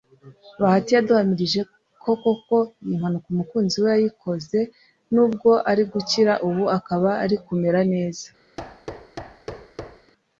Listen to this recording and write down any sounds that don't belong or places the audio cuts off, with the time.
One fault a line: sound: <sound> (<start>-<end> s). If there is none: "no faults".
sound: thud (8.6-10.1 s)